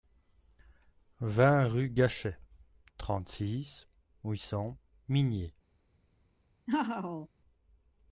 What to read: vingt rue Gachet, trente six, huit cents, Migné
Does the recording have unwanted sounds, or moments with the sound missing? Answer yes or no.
yes